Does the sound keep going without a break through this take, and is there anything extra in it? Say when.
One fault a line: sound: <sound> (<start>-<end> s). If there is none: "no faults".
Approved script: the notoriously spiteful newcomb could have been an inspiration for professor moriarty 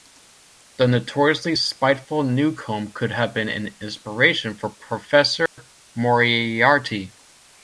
sound: dropout (5.5-5.6 s)